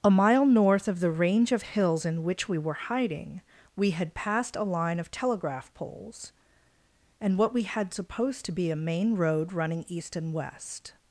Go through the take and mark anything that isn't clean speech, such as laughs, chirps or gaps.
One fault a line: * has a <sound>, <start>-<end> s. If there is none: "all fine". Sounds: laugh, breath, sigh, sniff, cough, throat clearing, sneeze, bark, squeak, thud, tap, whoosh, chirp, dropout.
all fine